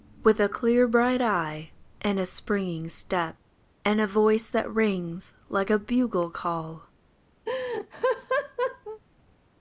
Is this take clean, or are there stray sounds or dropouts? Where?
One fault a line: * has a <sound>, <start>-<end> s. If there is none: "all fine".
* has a laugh, 7.5-9.0 s